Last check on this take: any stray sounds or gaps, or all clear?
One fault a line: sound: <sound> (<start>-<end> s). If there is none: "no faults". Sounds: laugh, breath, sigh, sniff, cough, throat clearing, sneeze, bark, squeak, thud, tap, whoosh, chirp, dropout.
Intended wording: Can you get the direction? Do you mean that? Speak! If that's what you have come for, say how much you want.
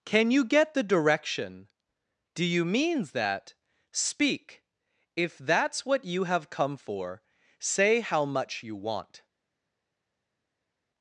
no faults